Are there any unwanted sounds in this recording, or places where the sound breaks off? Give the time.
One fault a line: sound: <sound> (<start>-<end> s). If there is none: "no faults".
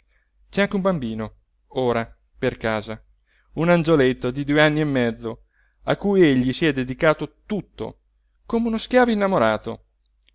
no faults